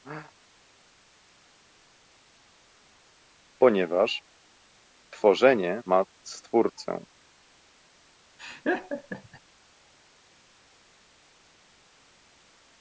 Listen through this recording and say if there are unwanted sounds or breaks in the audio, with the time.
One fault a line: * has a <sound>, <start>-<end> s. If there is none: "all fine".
* has a laugh, 8.4-9.4 s